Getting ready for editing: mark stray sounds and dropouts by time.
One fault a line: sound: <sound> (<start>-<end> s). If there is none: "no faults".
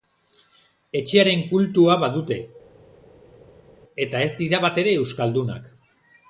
no faults